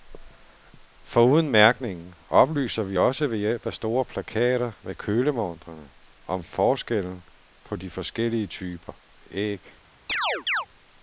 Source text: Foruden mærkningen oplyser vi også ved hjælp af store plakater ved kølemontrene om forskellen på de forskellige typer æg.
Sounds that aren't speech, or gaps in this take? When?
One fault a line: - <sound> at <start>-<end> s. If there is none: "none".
- chirp at 10.1-10.7 s